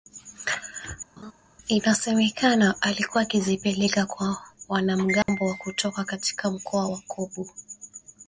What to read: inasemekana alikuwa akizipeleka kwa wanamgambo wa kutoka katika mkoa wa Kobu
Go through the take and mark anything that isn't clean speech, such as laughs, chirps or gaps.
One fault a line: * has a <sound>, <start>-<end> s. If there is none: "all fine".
* has a laugh, 1.2-1.3 s
* has a dropout, 5.2-5.3 s